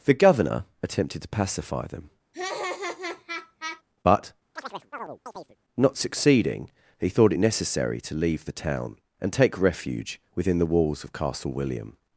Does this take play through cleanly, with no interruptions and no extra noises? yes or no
no